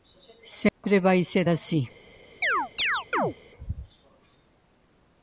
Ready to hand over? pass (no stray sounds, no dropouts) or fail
fail